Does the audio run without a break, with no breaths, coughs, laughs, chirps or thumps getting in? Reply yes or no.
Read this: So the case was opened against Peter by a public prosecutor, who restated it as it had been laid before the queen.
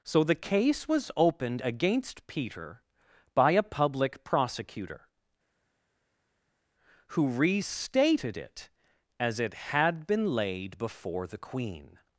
yes